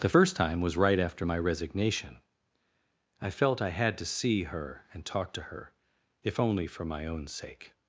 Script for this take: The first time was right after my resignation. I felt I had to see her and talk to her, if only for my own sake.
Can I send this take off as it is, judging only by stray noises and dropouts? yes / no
yes